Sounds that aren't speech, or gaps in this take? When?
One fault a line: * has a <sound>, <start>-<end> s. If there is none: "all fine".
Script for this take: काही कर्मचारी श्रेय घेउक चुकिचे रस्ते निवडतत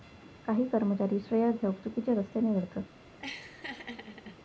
* has a laugh, 3.2-4.4 s